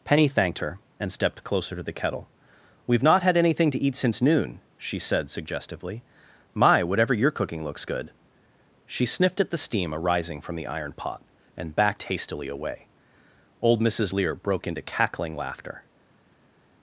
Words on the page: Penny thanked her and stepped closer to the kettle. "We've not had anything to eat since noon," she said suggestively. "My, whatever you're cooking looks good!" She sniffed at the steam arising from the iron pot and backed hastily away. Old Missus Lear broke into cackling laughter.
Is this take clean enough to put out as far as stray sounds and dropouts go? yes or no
yes